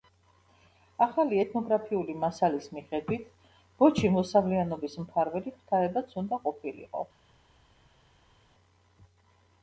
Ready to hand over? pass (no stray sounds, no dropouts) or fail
pass